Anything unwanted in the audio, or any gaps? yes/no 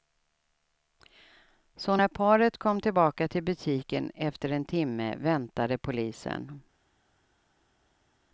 no